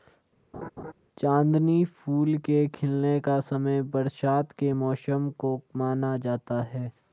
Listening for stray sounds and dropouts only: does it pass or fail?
fail